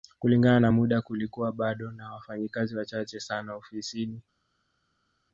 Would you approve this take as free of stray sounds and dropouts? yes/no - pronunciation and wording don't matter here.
yes